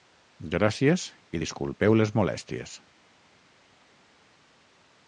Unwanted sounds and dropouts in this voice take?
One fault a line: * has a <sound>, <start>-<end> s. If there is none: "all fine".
all fine